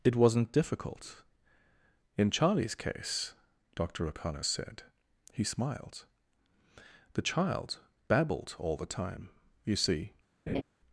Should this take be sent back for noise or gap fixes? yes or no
yes